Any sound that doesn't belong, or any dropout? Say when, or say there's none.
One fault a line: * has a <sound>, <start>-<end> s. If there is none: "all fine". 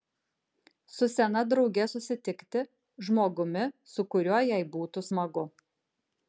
all fine